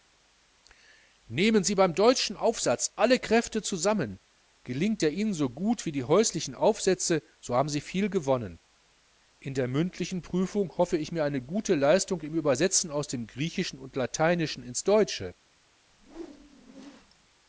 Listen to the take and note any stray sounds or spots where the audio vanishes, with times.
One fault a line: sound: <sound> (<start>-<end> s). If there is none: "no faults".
sound: whoosh (15.9-17.3 s)